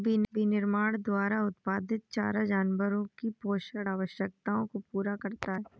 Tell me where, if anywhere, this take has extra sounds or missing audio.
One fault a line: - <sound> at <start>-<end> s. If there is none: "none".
none